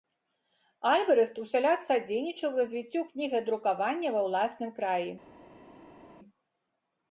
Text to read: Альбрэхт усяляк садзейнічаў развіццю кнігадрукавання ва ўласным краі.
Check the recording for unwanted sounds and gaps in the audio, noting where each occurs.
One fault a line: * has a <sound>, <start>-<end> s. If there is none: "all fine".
all fine